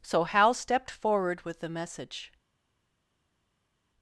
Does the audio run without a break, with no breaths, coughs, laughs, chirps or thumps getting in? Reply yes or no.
yes